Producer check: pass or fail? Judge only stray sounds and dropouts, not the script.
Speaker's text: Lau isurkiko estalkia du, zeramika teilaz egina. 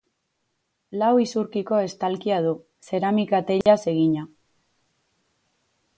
fail